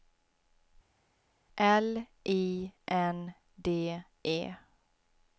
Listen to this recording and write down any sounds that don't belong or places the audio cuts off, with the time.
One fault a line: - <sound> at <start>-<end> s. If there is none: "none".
none